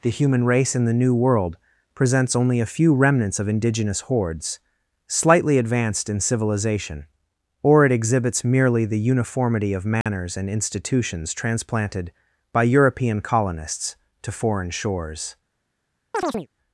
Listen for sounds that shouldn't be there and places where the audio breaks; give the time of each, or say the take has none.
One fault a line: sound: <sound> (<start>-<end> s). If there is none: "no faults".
sound: dropout (10.0-10.1 s)
sound: chirp (16.1-16.5 s)